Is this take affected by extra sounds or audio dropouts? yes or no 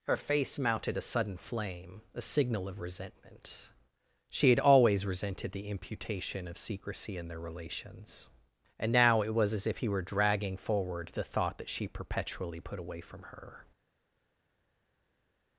no